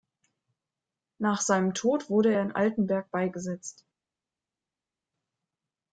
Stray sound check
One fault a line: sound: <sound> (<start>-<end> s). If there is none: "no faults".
no faults